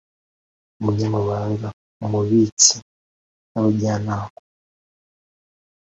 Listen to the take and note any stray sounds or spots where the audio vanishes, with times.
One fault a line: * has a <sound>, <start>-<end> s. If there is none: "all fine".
all fine